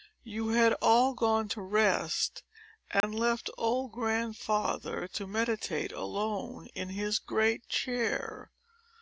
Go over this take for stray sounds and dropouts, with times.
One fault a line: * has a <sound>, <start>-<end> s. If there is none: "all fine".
* has a dropout, 3.0-3.0 s